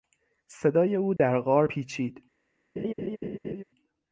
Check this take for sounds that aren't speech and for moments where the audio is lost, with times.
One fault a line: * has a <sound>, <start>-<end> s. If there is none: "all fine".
* has a dropout, 1.2-1.2 s
* has a laugh, 2.8-3.6 s